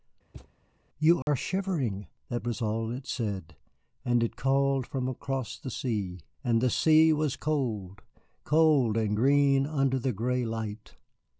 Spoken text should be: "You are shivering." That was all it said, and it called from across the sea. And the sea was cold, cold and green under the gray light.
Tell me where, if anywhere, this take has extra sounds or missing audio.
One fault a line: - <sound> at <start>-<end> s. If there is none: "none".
- thud at 0.3-0.5 s
- dropout at 1.2-1.3 s